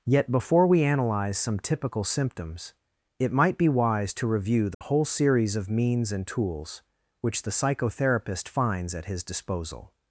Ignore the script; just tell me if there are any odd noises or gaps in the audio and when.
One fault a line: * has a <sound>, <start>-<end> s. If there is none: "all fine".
* has a dropout, 4.7-4.8 s